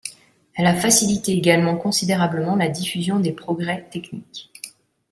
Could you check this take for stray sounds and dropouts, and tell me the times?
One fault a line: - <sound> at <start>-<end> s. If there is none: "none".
none